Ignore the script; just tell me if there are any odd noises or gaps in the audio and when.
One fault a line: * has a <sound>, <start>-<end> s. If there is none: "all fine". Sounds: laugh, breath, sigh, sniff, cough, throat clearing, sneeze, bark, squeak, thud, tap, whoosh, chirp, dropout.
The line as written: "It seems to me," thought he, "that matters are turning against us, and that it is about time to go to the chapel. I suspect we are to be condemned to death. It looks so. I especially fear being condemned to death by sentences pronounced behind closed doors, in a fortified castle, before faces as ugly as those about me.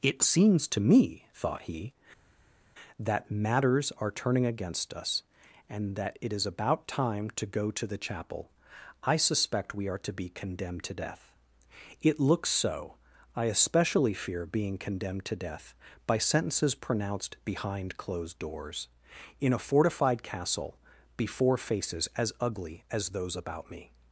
all fine